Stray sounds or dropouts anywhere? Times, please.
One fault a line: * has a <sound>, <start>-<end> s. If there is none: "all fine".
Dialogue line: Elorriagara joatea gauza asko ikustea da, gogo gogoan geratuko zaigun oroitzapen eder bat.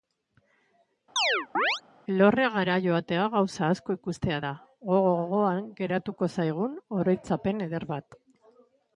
* has a chirp, 1.2-1.8 s